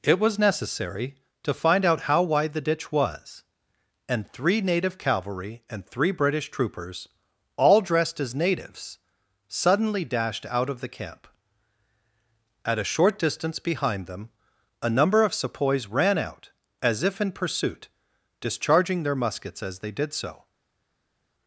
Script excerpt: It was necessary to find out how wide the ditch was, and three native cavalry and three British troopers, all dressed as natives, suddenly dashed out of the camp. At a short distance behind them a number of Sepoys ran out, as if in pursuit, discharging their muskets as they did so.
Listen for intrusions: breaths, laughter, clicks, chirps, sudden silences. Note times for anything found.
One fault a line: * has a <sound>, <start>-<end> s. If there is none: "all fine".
all fine